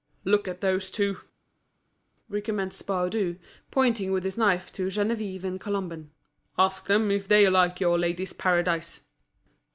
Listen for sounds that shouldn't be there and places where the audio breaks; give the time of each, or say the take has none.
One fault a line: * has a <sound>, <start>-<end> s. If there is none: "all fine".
all fine